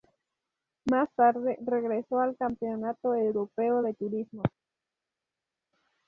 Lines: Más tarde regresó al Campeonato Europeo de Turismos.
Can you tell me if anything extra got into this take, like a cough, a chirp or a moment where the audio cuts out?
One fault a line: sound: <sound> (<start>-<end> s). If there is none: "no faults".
no faults